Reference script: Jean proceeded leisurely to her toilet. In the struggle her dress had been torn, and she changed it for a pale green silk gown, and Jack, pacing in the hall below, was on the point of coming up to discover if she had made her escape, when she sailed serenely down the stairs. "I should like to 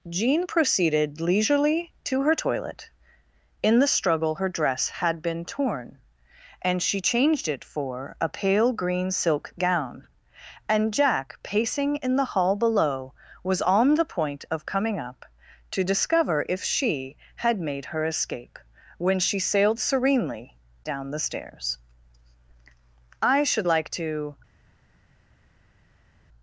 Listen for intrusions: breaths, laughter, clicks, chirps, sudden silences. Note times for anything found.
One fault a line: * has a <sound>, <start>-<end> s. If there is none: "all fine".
all fine